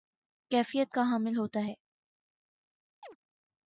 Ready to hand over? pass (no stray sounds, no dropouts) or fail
fail